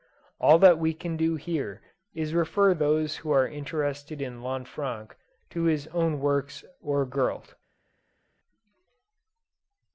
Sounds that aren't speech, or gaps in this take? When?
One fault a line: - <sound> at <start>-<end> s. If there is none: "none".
none